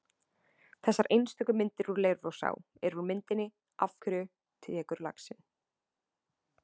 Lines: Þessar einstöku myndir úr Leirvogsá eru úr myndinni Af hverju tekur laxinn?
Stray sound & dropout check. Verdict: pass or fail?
pass